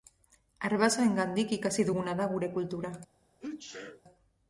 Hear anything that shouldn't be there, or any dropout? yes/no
yes